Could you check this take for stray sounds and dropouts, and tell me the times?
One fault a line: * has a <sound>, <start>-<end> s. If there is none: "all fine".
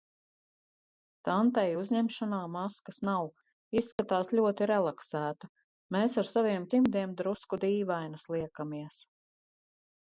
* has a dropout, 3.9-4.0 s